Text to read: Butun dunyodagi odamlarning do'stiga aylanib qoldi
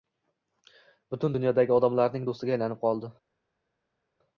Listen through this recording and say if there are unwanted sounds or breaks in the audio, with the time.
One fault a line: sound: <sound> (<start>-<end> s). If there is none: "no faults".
no faults